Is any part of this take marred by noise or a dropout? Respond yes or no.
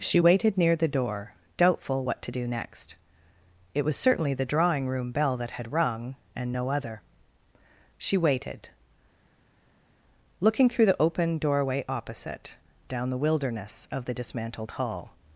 no